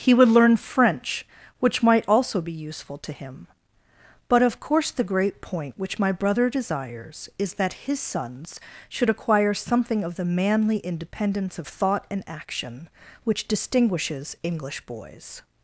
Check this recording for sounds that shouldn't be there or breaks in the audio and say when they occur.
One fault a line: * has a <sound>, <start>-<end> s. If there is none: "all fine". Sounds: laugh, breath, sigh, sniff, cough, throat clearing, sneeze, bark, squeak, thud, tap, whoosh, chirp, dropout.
all fine